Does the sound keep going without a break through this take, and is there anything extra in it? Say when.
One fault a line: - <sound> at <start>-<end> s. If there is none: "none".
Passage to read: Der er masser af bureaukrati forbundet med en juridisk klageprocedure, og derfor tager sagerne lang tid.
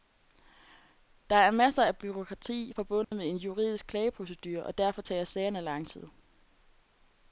- dropout at 3.0-3.1 s